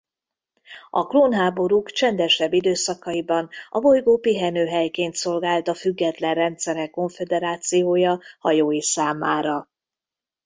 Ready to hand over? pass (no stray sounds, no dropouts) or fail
pass